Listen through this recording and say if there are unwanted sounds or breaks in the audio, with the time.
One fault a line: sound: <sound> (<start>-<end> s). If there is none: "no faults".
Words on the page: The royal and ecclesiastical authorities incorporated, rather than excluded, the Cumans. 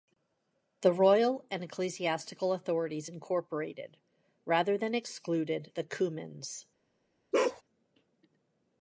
sound: bark (7.3-7.6 s)